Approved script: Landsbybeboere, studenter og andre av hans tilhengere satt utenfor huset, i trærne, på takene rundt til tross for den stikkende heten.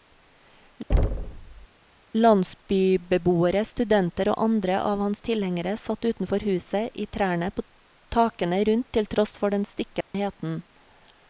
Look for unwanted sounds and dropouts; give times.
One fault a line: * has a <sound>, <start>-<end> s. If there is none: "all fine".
* has a thud, 0.9-1.7 s
* has a dropout, 10.0-10.1 s